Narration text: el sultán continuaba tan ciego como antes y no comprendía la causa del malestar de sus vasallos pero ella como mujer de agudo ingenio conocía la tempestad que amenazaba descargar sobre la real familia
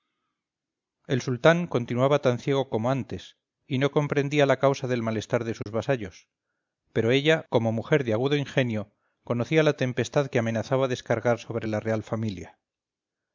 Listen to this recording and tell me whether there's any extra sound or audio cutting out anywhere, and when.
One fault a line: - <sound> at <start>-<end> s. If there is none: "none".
- dropout at 5.6-5.7 s